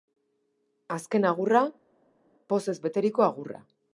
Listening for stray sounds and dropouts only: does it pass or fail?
pass